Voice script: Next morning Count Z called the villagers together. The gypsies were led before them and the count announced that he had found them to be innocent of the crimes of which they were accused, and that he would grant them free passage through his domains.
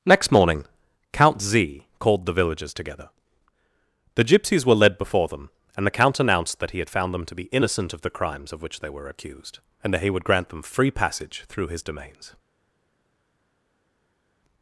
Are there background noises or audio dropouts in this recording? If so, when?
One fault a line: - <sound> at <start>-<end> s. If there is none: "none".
none